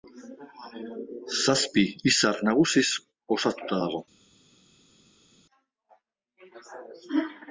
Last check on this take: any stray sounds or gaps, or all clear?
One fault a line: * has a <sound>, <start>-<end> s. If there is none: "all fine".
all fine